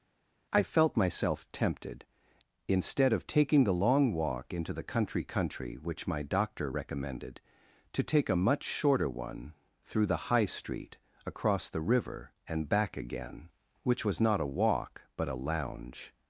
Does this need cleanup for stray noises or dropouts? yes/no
no